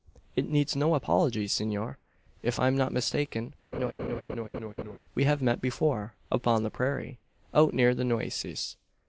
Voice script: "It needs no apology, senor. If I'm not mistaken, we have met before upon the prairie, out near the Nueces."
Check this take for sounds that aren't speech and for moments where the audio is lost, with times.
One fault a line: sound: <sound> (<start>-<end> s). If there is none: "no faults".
sound: laugh (3.7-5.0 s)